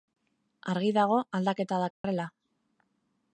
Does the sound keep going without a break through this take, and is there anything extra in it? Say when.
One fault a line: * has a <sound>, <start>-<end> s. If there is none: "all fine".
* has a dropout, 1.9-2.0 s